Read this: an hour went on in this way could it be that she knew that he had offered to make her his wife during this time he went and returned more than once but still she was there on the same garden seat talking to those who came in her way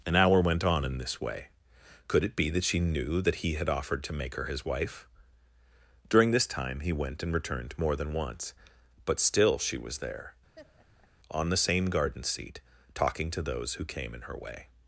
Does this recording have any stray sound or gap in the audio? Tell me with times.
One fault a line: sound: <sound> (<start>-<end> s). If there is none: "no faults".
sound: laugh (10.6-11.1 s)